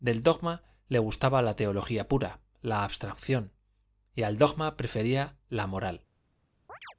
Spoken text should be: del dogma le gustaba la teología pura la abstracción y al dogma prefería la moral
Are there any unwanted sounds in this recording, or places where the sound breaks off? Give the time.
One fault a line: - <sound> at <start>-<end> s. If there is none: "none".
- chirp at 6.7-6.9 s